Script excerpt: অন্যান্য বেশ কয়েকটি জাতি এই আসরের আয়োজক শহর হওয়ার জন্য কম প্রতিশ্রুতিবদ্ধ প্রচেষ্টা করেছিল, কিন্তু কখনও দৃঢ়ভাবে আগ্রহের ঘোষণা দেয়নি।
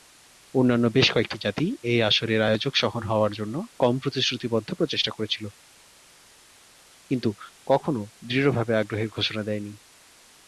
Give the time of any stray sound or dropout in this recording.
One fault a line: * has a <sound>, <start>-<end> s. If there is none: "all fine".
all fine